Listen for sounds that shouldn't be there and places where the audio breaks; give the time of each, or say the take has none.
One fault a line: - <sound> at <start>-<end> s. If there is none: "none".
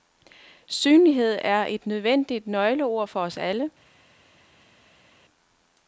none